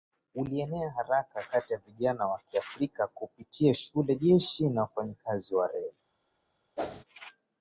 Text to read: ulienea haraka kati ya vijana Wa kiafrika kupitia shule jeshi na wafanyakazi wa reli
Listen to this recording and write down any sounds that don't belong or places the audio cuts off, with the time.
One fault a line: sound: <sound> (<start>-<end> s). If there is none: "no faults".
sound: whoosh (6.8-7.0 s)